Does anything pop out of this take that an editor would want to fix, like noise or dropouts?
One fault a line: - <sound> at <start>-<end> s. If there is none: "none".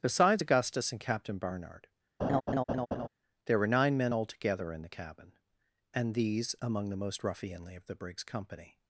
- laugh at 2.2-3.1 s